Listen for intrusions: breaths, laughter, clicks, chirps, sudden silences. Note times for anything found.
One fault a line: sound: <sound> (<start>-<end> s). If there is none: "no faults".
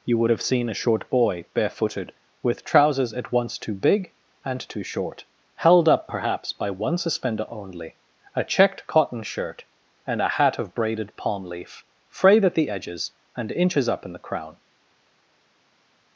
no faults